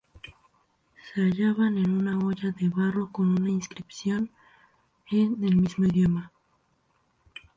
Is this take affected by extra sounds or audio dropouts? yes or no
no